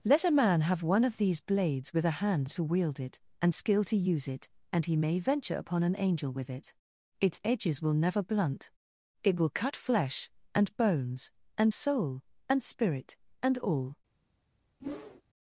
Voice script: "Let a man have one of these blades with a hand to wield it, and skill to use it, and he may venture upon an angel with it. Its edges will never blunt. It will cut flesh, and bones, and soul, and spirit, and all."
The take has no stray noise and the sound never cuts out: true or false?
false